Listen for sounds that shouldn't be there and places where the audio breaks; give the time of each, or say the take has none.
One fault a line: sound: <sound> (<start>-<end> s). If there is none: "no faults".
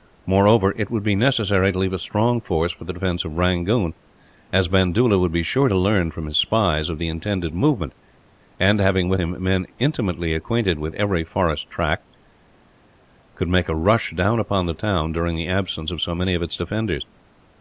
no faults